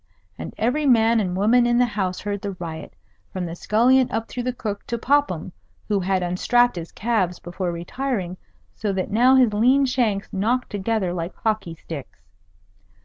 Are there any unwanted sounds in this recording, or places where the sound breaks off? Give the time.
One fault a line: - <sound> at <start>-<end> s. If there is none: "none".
none